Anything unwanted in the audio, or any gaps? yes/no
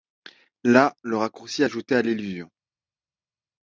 no